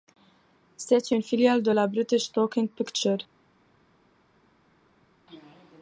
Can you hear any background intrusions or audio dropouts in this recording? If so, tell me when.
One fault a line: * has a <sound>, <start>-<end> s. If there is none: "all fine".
all fine